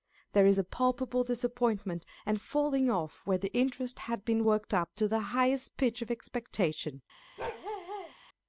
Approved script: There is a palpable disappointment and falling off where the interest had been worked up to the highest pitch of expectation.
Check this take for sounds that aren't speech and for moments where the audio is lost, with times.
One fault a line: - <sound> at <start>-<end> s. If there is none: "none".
- bark at 7.4-8.1 s